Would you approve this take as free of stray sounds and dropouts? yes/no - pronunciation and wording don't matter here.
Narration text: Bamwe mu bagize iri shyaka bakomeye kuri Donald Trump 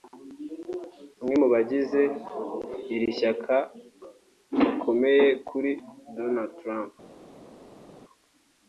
yes